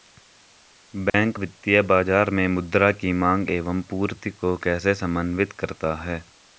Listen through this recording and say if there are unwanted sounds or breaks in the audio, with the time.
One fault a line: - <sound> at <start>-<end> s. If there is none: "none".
- dropout at 1.1-1.1 s